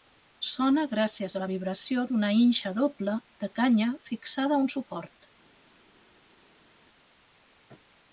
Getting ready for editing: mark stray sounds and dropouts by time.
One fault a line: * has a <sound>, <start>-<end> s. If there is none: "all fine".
all fine